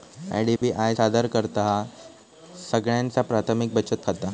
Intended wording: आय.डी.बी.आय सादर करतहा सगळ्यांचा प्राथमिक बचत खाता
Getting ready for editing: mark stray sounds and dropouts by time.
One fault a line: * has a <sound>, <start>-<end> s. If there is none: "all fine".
* has a dropout, 0.6-0.6 s